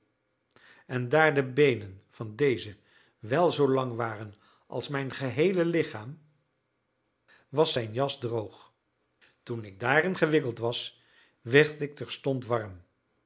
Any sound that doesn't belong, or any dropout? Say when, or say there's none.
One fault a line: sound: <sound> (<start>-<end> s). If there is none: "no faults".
no faults